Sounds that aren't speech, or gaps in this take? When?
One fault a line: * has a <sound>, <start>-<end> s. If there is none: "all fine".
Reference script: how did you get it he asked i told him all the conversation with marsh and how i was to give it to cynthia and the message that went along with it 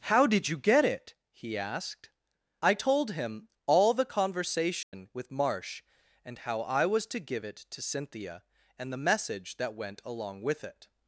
* has a dropout, 4.8-4.9 s